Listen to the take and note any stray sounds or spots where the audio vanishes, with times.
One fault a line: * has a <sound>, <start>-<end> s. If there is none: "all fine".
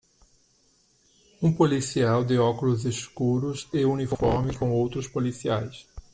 all fine